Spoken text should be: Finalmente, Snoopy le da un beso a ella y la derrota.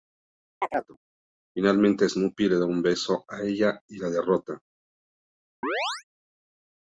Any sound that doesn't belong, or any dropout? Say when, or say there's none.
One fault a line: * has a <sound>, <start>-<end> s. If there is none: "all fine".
* has a chirp, 0.6-1.0 s
* has a chirp, 5.6-6.0 s